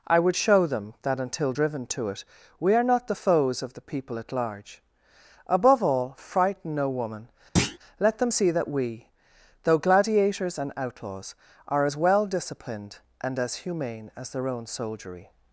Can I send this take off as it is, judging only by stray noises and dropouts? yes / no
no